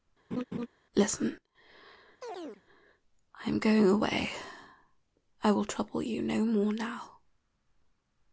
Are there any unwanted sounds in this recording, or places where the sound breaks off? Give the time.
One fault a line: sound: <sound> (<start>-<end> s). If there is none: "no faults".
sound: laugh (0.3-0.7 s)
sound: chirp (2.2-2.6 s)